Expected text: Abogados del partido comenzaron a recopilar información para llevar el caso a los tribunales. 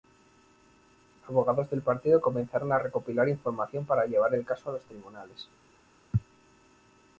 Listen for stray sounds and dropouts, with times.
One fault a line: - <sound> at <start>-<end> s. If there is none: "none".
none